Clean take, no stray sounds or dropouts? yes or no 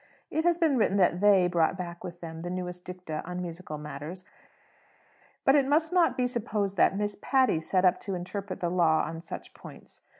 yes